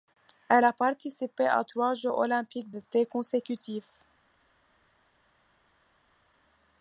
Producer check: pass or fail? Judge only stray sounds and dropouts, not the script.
pass